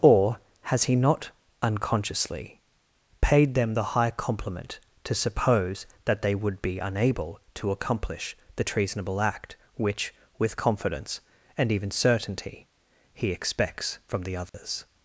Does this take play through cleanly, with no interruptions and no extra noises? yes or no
no